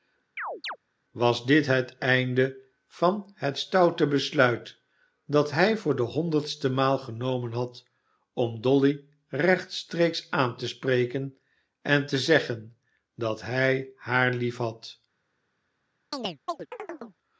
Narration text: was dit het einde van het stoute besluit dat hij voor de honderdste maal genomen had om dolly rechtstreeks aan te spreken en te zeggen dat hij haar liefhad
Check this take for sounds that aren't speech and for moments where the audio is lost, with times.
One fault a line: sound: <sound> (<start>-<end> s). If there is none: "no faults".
sound: chirp (0.4-0.8 s)
sound: chirp (16.1-17.2 s)